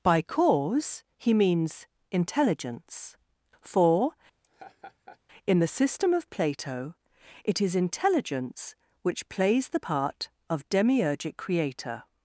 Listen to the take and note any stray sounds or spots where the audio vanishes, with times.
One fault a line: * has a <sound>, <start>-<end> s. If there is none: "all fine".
* has a laugh, 4.4-5.2 s